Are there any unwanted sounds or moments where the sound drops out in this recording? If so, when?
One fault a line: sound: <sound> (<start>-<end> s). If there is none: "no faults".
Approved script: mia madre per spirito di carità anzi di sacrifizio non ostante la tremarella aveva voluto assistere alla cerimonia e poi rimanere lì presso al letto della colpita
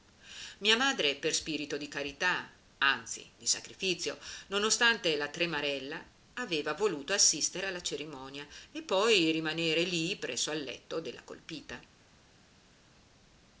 no faults